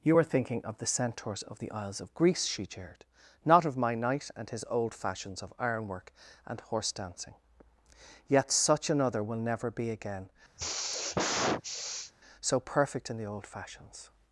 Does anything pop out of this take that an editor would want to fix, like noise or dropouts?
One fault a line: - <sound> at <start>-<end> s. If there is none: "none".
- sigh at 10.6-12.1 s